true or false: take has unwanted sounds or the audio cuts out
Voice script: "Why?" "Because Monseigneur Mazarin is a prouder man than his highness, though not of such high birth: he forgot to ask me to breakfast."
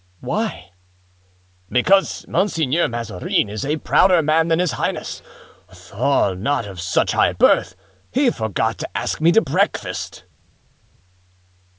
false